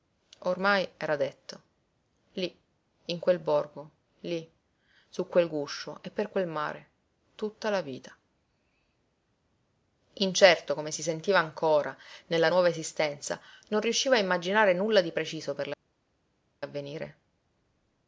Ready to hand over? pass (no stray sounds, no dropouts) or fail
pass